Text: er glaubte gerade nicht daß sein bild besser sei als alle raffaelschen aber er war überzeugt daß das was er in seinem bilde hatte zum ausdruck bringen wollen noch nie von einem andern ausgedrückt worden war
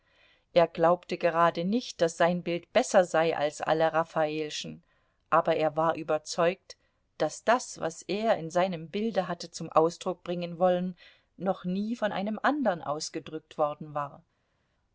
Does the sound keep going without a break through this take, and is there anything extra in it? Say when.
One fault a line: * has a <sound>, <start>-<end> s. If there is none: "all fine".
all fine